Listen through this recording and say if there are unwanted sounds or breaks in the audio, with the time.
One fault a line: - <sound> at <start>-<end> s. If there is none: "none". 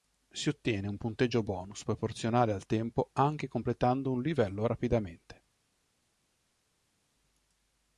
none